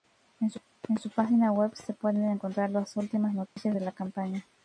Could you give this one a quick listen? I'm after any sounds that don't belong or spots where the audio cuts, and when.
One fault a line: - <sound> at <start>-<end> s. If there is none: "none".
- dropout at 3.5-3.6 s